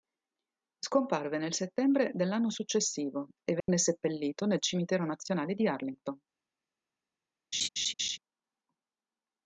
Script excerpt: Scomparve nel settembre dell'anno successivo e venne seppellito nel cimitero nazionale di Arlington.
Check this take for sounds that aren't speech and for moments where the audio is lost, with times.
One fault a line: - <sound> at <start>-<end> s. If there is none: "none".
- dropout at 3.6-3.7 s
- laugh at 7.5-8.2 s